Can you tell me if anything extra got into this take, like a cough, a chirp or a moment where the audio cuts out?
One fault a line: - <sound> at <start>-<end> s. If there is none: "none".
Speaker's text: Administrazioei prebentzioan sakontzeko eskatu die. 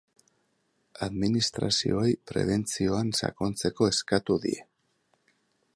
none